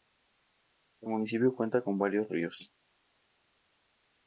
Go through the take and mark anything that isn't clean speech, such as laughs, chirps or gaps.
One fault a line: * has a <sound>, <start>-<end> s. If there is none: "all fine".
all fine